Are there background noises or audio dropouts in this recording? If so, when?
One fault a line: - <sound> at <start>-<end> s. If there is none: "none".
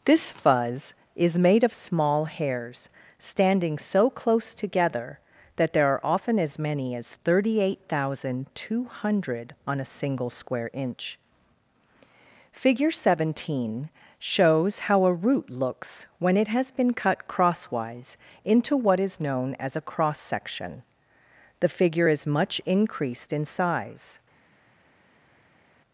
none